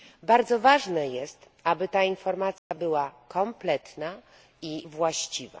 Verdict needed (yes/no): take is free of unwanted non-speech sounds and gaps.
no